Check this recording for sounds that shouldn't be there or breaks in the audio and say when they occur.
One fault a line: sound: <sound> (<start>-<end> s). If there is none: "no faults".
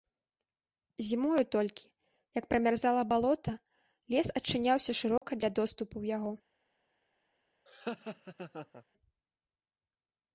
sound: dropout (5.2-5.2 s)
sound: laugh (7.7-8.8 s)